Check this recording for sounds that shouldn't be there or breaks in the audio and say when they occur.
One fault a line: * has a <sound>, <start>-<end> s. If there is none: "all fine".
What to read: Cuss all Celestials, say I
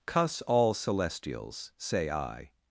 all fine